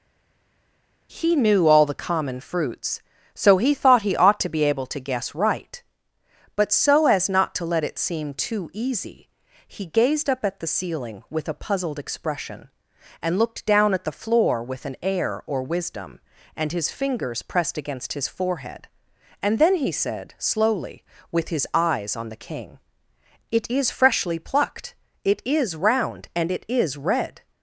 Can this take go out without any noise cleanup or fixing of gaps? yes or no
yes